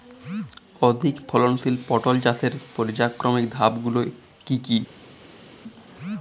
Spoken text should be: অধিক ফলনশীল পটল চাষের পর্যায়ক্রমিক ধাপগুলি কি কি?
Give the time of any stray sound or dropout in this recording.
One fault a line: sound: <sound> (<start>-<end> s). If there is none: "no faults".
no faults